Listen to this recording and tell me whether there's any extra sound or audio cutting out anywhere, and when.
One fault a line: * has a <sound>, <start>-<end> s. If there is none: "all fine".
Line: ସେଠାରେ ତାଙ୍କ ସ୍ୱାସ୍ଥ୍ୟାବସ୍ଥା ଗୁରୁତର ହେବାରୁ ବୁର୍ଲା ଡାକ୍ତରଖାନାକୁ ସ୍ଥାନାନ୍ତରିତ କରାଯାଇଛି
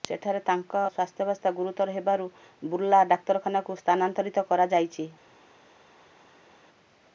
all fine